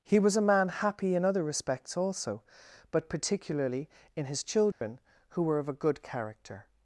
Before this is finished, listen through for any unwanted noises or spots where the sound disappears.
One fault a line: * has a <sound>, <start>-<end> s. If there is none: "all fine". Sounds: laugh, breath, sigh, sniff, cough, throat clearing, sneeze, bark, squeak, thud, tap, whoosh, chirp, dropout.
* has a dropout, 4.7-4.8 s